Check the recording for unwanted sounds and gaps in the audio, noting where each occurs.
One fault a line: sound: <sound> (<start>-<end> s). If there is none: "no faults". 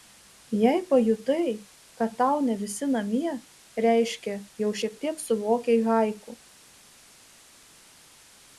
no faults